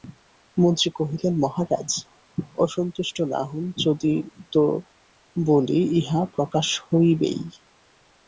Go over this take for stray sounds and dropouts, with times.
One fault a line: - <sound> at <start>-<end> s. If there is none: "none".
none